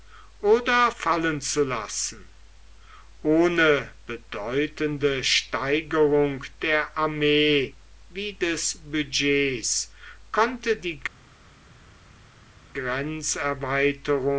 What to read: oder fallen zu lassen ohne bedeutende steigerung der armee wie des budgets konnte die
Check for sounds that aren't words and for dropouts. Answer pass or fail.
pass